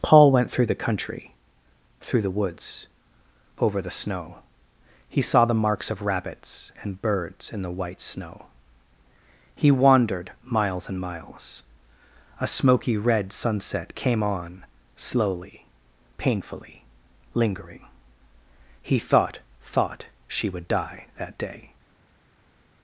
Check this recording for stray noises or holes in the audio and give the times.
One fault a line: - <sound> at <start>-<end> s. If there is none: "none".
none